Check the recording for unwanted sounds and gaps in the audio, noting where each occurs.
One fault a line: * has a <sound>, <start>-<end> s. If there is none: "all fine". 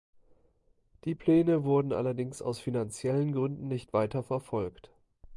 all fine